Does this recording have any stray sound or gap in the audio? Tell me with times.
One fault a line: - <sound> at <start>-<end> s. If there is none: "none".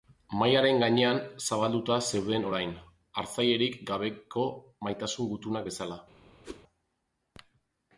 - whoosh at 6.4-6.6 s